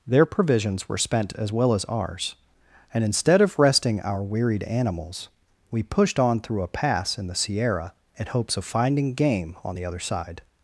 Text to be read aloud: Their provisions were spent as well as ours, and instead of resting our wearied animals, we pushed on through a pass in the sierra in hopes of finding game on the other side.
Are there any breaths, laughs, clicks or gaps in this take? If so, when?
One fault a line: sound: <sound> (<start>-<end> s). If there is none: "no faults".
no faults